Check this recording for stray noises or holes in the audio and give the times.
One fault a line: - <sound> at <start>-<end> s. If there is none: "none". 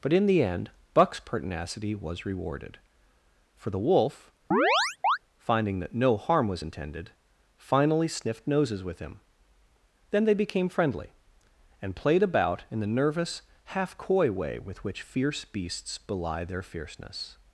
- chirp at 4.5-5.2 s